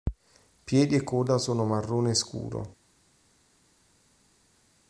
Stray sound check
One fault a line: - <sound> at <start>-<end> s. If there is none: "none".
none